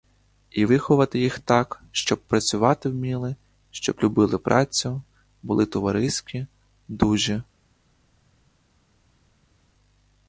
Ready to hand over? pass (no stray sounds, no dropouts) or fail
pass